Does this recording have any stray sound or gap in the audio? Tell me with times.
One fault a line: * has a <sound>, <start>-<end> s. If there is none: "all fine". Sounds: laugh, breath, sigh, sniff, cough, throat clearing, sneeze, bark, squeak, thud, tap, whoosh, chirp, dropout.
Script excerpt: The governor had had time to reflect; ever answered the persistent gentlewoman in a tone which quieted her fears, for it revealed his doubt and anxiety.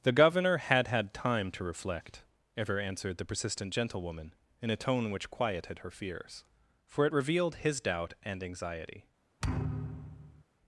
* has a thud, 9.4-10.4 s